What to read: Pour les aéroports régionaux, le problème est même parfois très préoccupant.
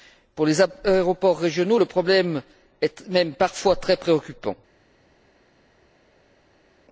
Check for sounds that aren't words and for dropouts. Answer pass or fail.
pass